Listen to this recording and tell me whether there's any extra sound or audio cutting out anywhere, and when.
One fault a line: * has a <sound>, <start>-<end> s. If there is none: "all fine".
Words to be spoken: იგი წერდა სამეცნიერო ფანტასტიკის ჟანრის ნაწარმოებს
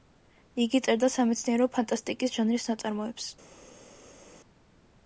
all fine